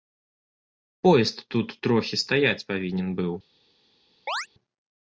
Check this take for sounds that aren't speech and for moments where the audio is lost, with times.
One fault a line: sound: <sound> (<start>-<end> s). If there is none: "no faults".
sound: chirp (4.3-4.5 s)